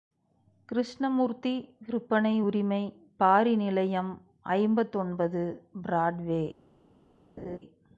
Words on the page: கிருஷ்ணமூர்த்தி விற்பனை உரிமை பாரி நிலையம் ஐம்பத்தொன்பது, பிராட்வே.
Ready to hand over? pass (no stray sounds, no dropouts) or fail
fail